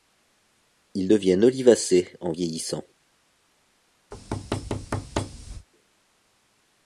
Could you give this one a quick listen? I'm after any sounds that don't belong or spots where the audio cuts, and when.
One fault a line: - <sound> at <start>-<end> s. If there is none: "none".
- thud at 4.1-5.7 s